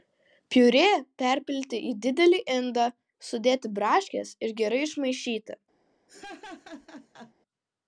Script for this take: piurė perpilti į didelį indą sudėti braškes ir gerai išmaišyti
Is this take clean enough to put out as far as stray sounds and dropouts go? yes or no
no